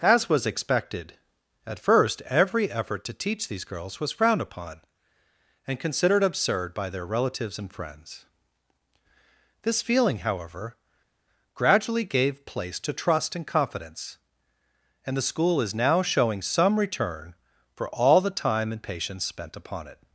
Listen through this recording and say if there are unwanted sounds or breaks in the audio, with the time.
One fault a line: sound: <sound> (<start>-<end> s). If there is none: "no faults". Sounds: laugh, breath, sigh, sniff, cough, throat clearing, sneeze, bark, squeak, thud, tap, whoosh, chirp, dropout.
no faults